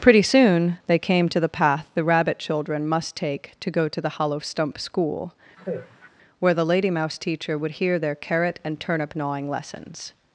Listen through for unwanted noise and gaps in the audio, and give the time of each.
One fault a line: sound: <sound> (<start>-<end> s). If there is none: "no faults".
sound: sigh (5.6-6.1 s)